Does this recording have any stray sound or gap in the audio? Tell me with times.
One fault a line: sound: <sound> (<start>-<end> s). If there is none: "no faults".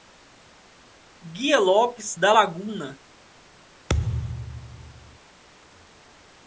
sound: thud (3.9-5.2 s)